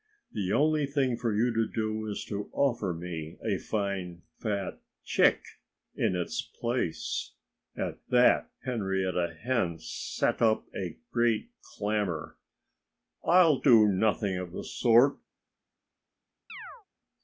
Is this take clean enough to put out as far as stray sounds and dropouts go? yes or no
no